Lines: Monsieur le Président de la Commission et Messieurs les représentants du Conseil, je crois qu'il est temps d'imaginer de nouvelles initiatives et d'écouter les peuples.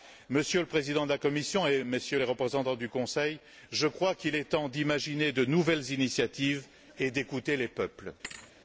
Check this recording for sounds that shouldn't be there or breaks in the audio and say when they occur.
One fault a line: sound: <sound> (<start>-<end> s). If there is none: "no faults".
sound: thud (8.2-8.5 s)